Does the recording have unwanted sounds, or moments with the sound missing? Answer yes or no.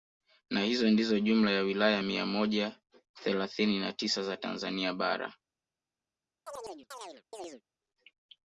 yes